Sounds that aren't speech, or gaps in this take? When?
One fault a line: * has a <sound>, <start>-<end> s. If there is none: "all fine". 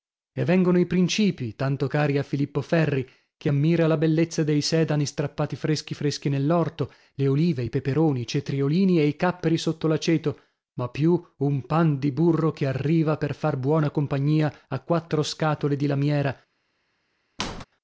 * has a squeak, 17.4-17.6 s